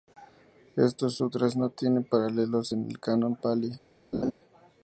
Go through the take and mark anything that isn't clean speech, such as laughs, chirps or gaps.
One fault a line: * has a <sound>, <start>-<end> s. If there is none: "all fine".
* has a laugh, 4.1-4.3 s